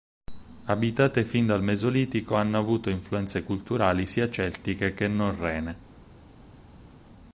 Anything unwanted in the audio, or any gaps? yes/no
no